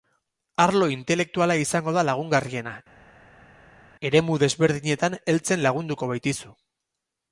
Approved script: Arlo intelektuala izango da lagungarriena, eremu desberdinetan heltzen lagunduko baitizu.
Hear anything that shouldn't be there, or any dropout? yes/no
no